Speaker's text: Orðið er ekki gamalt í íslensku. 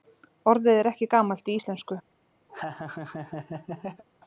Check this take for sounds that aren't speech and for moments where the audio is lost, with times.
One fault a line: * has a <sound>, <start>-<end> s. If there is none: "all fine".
* has a laugh, 2.5-4.0 s